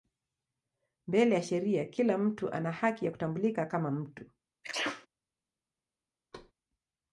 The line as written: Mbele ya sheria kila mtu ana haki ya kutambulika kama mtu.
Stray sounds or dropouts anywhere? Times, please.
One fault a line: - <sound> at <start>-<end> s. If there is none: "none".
- sneeze at 4.6-5.1 s
- thud at 6.3-6.5 s